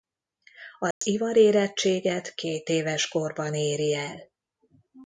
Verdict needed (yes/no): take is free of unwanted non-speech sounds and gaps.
no